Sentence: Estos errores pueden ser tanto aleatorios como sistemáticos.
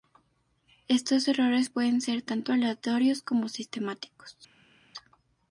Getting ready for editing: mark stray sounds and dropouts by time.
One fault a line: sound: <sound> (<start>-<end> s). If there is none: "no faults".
no faults